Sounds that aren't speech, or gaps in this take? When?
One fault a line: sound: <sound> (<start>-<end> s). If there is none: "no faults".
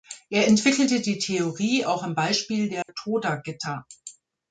sound: dropout (2.8-2.9 s)